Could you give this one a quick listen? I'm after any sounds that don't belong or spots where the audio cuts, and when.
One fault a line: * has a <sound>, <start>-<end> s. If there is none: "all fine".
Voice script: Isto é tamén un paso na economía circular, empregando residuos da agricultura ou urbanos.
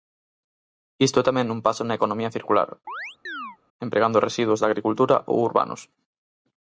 * has a chirp, 2.9-3.6 s